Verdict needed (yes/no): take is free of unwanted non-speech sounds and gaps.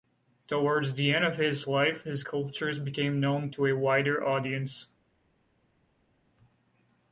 yes